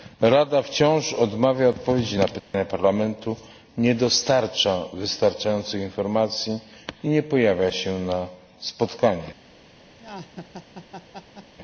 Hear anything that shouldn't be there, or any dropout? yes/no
yes